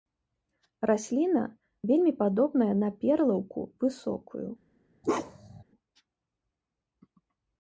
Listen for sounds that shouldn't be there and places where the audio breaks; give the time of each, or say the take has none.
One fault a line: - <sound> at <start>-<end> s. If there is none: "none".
- bark at 5.0-5.6 s